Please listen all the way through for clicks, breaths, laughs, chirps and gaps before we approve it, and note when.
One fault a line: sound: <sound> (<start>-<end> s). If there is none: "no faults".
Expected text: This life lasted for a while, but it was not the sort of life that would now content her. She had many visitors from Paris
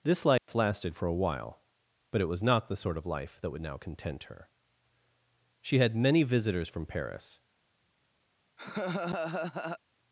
sound: dropout (0.4-0.5 s)
sound: laugh (8.6-9.8 s)